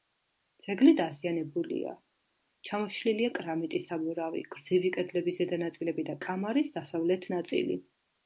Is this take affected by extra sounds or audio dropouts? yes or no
no